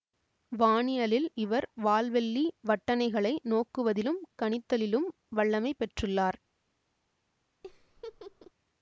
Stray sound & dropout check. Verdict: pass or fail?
fail